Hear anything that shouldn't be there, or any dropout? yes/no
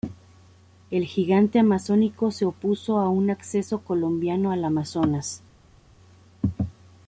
no